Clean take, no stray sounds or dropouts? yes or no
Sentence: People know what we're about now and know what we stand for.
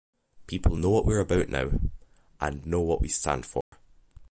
no